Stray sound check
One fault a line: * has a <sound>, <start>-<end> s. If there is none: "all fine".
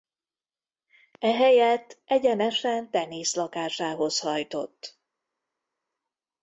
all fine